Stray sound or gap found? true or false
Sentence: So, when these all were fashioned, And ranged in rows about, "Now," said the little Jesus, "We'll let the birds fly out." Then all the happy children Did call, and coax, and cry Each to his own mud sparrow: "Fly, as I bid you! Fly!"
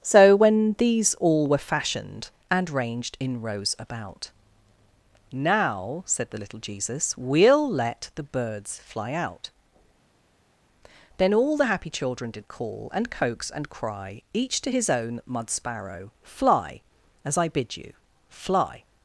false